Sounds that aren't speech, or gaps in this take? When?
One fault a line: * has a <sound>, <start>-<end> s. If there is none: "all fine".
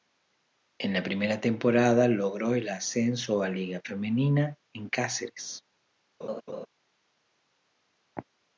* has a laugh, 6.2-6.7 s